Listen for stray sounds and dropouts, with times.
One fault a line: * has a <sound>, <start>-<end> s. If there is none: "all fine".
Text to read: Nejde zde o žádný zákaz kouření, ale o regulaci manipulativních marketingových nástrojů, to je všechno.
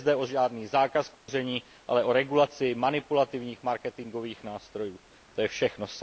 * has a dropout, 1.1-1.3 s